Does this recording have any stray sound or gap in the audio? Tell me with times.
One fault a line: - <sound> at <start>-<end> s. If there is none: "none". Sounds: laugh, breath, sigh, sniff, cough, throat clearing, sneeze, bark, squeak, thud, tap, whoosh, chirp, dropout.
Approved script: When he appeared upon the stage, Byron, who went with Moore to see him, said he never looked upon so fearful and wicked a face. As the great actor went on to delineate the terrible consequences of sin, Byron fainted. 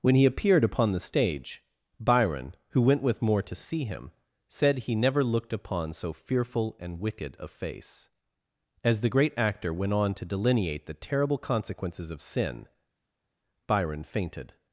none